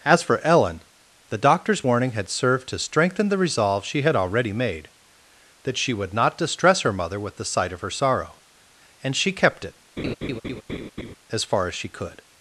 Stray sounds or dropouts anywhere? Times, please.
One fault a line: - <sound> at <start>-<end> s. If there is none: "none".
- laugh at 10.0-11.2 s